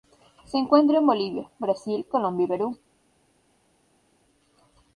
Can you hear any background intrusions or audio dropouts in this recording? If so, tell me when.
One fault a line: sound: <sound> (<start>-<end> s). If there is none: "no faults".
no faults